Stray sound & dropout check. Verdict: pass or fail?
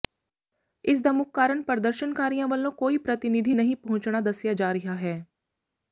pass